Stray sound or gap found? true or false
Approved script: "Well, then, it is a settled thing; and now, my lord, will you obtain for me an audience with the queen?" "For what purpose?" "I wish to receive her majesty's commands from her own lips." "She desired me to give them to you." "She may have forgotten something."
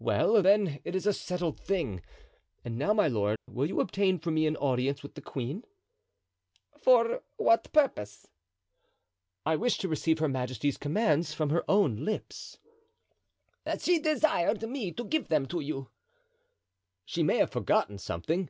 true